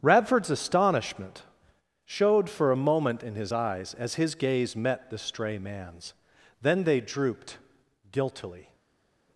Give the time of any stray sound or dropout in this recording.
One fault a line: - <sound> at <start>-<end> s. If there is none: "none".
none